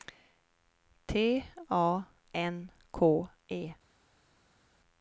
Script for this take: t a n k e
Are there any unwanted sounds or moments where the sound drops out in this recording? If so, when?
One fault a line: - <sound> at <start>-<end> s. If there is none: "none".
none